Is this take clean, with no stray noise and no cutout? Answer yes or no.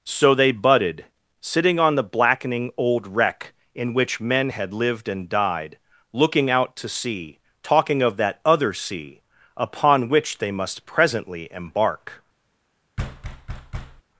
no